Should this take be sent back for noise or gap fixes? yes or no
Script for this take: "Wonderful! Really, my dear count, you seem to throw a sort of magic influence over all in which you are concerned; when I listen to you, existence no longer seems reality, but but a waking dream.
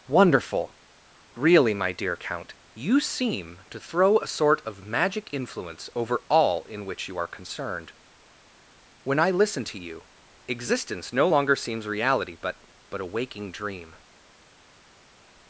no